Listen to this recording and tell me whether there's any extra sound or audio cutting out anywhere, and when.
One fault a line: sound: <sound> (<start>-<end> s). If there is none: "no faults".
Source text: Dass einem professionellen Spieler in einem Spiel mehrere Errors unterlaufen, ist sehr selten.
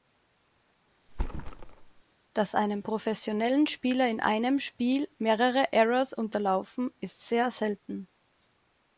sound: thud (1.1-2.0 s)